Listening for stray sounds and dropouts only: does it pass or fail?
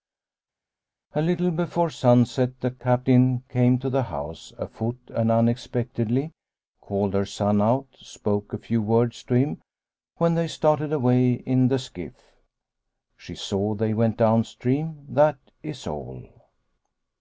pass